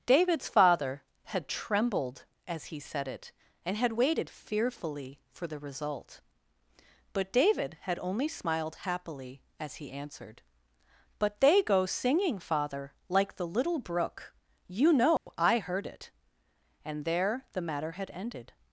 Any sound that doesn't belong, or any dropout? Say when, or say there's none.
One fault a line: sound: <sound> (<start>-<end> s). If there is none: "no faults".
sound: dropout (15.2-15.3 s)